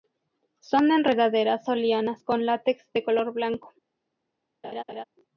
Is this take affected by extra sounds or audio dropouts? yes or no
yes